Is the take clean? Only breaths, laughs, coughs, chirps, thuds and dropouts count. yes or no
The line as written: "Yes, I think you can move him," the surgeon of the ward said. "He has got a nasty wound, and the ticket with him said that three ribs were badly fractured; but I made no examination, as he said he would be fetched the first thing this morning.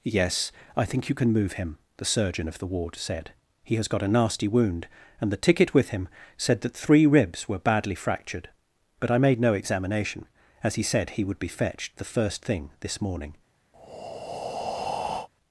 no